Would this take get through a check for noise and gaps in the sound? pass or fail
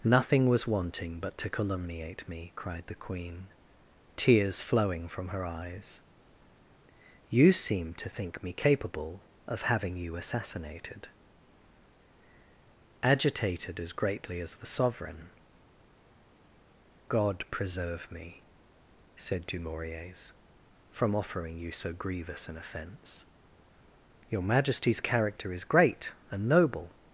pass